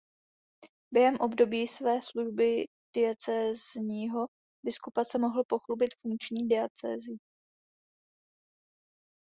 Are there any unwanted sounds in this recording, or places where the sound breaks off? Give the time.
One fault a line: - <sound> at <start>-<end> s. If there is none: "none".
none